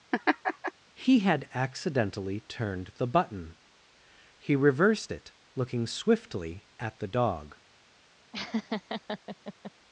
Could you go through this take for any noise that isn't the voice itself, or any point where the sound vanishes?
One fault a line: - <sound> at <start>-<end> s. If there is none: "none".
- laugh at 0.1-0.7 s
- laugh at 8.3-9.7 s